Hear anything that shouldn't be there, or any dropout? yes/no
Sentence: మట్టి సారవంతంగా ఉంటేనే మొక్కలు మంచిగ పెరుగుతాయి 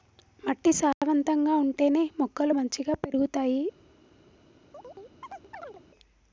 yes